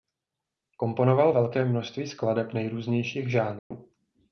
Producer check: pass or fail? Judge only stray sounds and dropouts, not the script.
fail